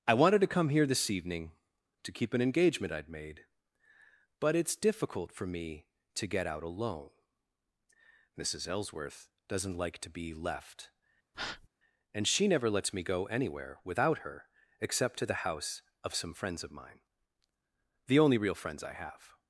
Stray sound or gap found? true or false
true